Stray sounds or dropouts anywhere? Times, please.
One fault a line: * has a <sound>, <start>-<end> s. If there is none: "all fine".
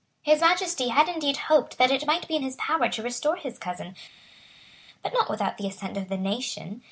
all fine